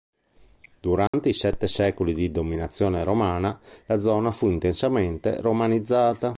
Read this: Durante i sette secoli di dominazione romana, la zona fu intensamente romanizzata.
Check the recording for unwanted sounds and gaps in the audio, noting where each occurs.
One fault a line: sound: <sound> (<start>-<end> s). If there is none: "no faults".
sound: dropout (1.1-1.1 s)